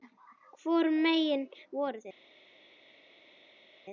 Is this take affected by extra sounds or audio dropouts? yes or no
no